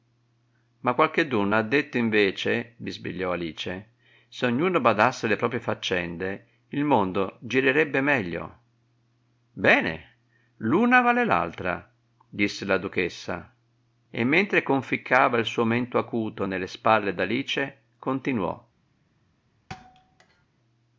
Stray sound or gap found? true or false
true